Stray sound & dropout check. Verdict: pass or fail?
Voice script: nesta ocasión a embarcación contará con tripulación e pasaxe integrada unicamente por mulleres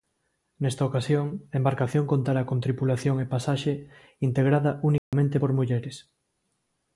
fail